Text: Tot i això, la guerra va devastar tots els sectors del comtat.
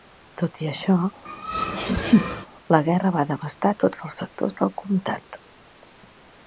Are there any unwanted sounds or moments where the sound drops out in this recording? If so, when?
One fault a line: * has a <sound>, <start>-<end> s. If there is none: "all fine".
* has a laugh, 1.3-2.5 s